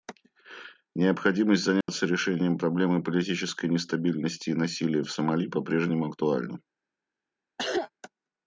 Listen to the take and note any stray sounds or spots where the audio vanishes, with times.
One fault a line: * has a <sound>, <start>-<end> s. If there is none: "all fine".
* has a dropout, 1.8-1.9 s
* has a cough, 7.6-7.9 s